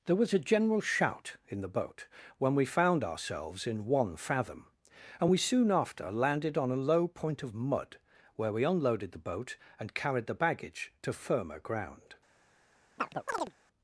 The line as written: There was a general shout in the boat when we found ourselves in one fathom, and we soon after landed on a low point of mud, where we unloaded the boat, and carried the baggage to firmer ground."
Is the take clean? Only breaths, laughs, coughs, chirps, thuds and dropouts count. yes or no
no